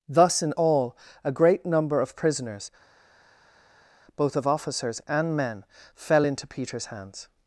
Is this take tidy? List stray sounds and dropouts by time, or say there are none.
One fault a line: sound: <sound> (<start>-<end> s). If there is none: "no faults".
no faults